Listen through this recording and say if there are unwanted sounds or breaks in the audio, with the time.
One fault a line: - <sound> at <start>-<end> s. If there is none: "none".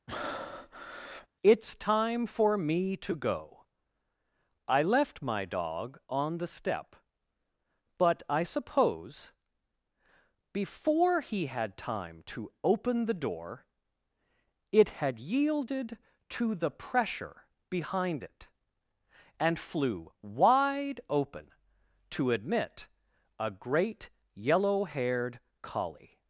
- breath at 0.1-1.3 s